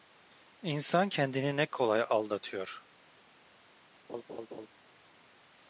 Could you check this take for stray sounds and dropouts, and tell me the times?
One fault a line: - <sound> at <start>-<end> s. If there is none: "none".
- laugh at 4.1-4.7 s